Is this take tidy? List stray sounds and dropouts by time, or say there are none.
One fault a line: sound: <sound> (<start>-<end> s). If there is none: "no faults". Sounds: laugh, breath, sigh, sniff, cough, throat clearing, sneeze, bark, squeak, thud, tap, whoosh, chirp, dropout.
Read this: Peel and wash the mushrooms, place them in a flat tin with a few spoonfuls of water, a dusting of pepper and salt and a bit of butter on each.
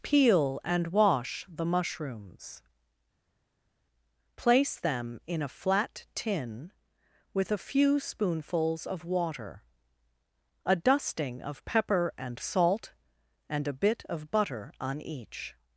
no faults